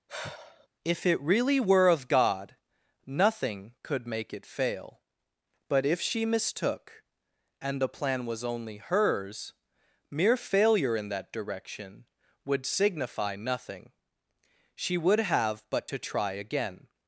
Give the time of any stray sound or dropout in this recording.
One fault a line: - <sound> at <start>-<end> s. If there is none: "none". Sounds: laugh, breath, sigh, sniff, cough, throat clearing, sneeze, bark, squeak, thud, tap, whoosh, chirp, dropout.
- sigh at 0.1-0.7 s